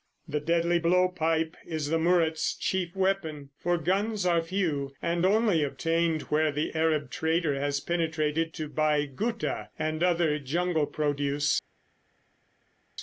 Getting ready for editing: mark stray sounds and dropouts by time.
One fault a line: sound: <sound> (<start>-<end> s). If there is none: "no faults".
no faults